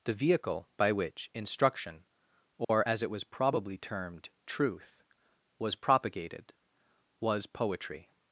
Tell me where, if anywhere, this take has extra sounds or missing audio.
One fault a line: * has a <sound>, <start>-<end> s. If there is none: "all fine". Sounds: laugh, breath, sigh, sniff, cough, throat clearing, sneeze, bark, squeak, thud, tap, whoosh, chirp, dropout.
* has a dropout, 2.6-2.7 s